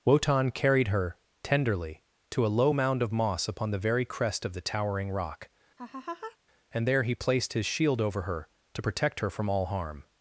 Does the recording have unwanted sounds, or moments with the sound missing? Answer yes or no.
yes